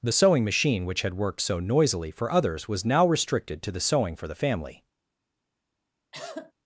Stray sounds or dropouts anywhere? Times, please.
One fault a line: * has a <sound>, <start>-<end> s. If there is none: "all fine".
* has a cough, 6.1-6.5 s